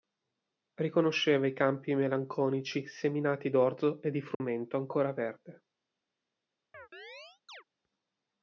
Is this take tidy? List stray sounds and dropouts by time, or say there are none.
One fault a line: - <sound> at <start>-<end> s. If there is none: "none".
- dropout at 4.3-4.4 s
- chirp at 6.7-7.6 s